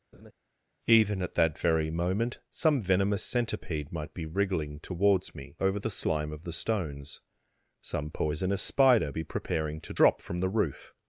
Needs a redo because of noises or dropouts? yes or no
yes